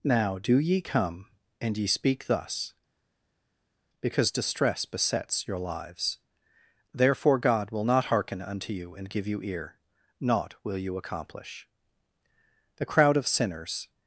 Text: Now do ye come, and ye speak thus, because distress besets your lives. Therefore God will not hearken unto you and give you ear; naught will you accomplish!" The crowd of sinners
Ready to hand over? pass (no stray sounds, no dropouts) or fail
pass